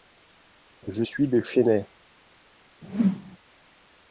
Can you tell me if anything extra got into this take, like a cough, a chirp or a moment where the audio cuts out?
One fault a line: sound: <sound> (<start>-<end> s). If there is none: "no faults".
sound: whoosh (2.8-3.4 s)